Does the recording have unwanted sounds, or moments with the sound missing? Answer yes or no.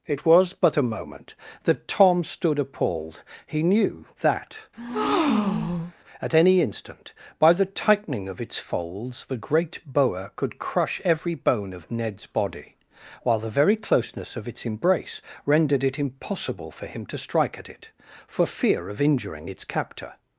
yes